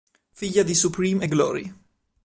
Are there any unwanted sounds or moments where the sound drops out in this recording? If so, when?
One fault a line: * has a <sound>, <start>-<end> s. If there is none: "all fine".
all fine